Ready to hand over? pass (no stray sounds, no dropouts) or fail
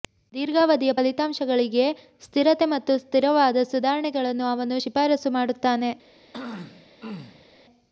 fail